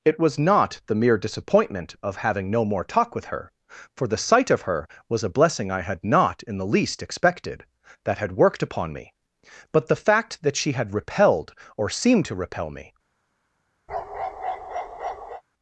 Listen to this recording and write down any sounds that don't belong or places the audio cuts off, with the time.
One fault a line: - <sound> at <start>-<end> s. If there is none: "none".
- bark at 13.9-15.4 s